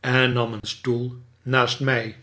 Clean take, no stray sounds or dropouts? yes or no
no